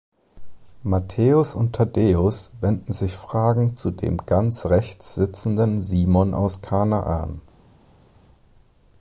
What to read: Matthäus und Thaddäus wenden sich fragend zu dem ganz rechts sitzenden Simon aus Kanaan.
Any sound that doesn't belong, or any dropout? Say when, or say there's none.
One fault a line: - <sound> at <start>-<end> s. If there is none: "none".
none